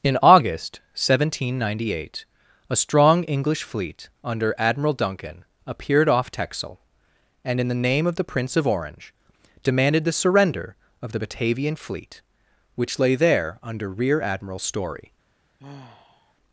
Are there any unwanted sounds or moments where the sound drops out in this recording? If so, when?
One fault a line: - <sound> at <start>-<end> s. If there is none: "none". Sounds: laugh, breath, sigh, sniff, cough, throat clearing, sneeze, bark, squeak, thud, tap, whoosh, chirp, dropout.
- sigh at 15.6-16.3 s